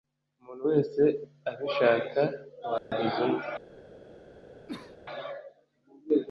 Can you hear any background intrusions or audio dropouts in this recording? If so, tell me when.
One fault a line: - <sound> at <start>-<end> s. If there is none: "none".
- dropout at 2.8-2.9 s
- cough at 4.7-5.0 s